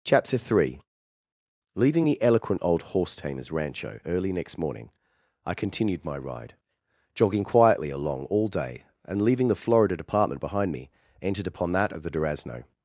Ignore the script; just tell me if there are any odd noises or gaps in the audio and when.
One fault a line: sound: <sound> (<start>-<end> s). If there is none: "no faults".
no faults